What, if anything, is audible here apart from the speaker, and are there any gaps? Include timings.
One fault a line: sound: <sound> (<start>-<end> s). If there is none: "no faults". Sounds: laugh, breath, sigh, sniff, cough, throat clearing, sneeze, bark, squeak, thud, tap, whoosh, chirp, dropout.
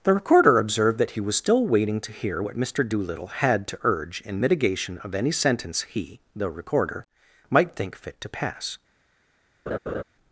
sound: laugh (9.7-10.0 s)